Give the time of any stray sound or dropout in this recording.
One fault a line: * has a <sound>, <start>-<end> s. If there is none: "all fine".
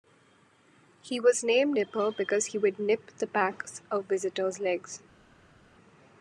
all fine